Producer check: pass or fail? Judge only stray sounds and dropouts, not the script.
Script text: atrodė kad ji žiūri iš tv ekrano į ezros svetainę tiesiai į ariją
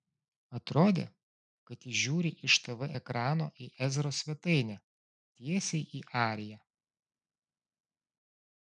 pass